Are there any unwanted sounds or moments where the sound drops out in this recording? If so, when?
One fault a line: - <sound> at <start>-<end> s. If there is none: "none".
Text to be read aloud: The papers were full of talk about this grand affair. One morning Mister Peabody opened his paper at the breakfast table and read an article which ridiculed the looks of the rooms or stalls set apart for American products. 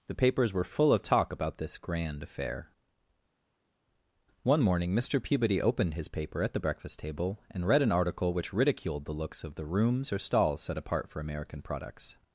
none